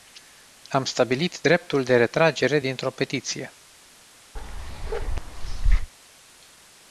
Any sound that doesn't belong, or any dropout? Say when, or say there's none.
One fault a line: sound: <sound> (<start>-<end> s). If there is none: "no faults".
sound: bark (4.4-5.9 s)